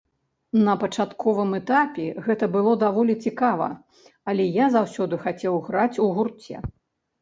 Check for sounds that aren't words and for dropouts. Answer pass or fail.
pass